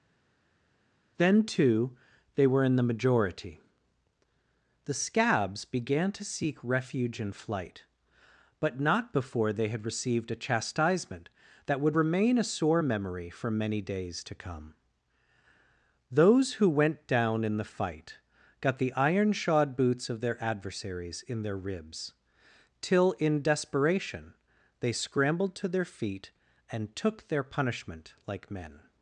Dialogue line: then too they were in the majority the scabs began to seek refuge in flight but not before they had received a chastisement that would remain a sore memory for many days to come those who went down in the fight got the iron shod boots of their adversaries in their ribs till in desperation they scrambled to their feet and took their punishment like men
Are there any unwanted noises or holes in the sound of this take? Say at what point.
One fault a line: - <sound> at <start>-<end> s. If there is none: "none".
none